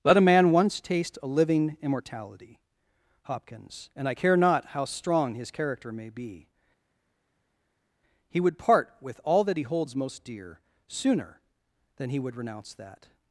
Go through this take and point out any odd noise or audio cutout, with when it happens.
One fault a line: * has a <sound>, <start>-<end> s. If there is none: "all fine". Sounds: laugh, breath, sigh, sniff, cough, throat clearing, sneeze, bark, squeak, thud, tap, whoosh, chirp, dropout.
all fine